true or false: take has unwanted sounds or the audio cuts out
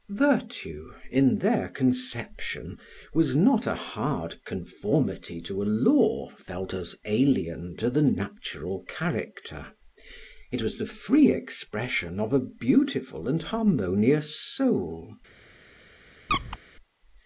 true